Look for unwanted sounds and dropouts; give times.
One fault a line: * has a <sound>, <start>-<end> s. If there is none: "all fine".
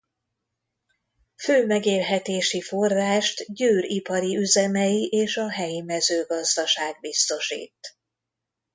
all fine